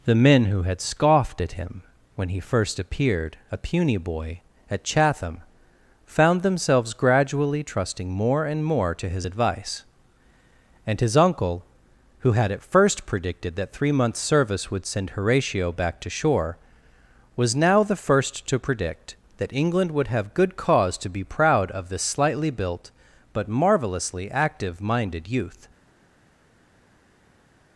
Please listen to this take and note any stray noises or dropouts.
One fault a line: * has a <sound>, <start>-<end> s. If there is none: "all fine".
all fine